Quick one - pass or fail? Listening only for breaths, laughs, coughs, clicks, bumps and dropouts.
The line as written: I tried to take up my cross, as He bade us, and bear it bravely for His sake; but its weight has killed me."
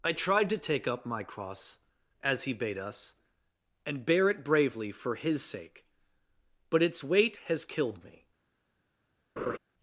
fail